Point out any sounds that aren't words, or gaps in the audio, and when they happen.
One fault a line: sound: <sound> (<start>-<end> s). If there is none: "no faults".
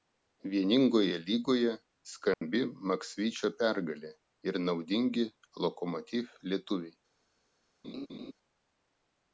sound: dropout (2.3-2.4 s)
sound: laugh (7.8-8.3 s)